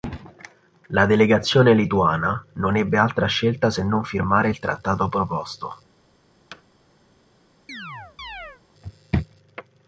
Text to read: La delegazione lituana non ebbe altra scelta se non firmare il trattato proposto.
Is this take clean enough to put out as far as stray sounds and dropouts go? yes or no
no